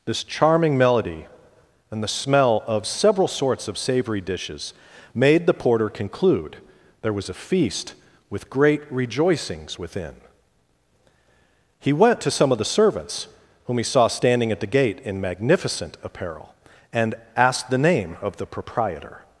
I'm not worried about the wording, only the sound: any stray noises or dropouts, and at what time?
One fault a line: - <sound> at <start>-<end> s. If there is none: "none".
none